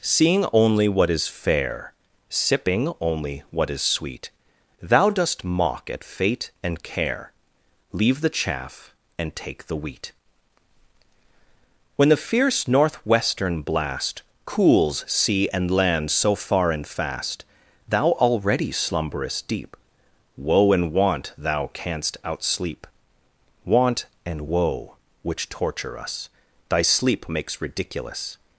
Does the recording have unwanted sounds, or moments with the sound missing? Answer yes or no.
no